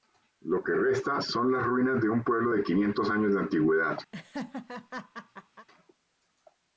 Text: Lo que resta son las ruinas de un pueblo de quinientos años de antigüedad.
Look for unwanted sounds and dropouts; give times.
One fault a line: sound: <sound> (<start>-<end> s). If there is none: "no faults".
sound: laugh (4.1-5.7 s)